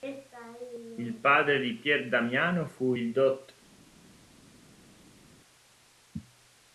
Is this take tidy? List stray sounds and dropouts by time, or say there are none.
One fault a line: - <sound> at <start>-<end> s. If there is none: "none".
none